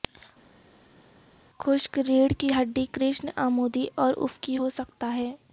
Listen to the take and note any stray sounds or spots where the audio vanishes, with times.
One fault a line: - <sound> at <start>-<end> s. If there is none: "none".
none